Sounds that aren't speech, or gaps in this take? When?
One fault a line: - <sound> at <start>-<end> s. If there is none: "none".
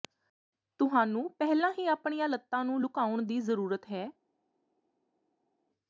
none